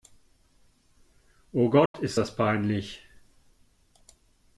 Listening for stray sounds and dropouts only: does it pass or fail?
fail